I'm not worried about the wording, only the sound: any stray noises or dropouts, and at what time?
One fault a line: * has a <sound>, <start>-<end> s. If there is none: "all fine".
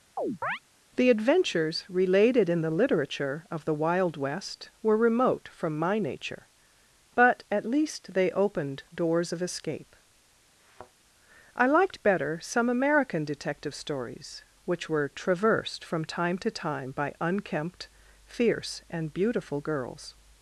* has a chirp, 0.2-0.6 s
* has a thud, 10.6-10.9 s